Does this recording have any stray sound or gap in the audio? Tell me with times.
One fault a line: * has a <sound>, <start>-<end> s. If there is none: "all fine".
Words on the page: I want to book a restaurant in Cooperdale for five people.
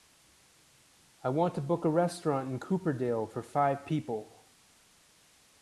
all fine